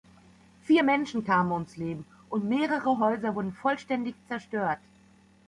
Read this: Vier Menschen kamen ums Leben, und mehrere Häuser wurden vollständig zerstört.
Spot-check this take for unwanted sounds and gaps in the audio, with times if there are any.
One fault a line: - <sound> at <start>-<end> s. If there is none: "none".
none